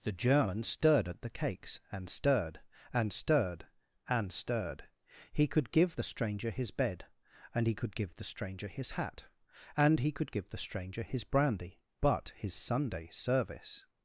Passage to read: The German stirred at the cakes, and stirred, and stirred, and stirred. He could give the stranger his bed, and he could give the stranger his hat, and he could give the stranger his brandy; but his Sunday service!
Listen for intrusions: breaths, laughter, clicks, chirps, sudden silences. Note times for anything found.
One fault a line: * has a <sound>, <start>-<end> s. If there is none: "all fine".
all fine